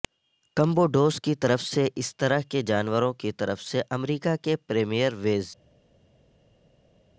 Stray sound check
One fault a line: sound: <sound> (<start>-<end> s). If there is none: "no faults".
no faults